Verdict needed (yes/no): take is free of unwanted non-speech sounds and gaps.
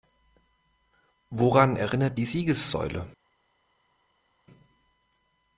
yes